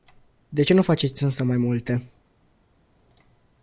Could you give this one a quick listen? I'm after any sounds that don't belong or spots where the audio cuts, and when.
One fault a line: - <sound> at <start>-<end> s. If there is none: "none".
none